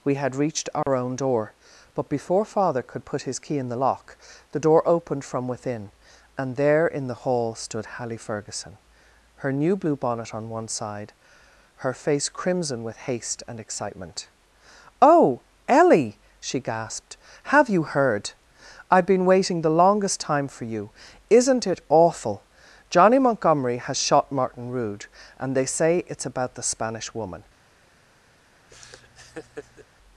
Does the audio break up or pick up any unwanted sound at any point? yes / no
yes